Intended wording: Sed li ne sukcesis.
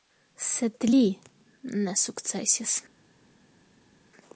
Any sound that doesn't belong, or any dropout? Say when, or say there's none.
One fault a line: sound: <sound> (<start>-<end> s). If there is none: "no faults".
no faults